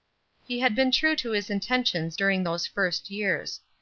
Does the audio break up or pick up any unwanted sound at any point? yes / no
no